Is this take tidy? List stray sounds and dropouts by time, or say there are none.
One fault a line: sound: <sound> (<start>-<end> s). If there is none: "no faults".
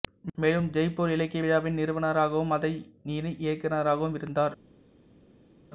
no faults